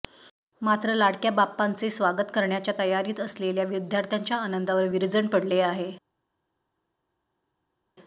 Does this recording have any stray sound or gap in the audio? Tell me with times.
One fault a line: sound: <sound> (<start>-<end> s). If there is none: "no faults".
no faults